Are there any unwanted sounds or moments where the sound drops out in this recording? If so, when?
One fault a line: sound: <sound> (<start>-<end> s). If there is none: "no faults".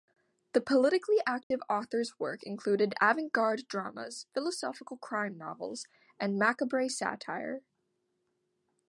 sound: dropout (1.4-1.5 s)